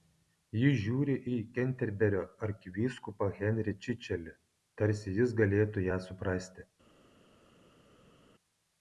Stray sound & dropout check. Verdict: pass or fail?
pass